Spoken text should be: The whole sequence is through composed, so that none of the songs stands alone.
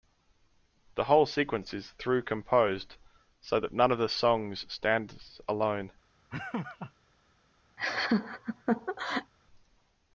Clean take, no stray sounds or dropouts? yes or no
no